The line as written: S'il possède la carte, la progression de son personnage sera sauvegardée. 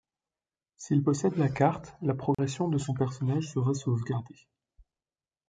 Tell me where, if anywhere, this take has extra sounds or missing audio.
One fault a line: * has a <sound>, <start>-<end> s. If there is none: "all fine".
* has a dropout, 2.3-2.4 s